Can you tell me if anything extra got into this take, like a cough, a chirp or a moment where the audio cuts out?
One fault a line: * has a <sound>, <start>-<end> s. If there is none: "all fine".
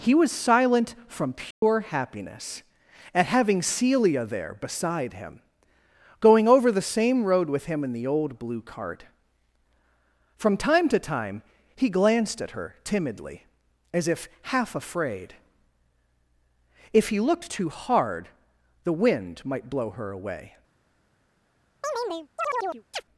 * has a dropout, 1.5-1.6 s
* has a chirp, 21.8-23.0 s